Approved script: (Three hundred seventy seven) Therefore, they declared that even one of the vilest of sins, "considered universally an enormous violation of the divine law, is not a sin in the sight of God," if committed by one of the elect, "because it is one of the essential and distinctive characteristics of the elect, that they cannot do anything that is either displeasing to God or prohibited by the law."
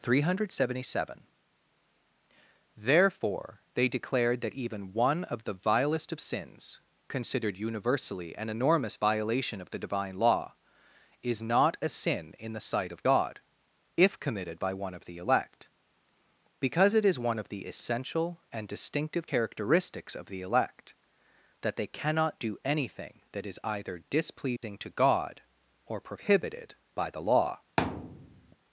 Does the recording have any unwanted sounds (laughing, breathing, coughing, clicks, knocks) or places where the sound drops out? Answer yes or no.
yes